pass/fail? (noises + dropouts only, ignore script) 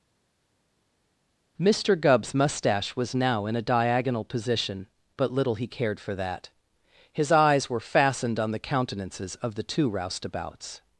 pass